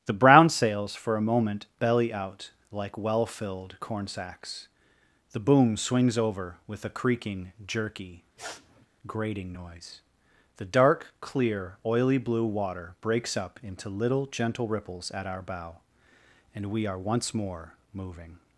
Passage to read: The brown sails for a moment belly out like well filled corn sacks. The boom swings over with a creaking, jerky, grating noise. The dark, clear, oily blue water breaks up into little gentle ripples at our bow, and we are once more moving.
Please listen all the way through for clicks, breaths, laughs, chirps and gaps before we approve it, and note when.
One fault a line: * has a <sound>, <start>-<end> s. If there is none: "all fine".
* has a sniff, 8.4-8.9 s